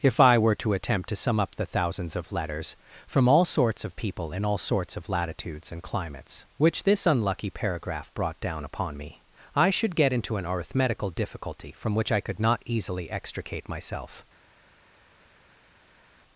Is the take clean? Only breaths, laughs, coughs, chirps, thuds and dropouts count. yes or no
yes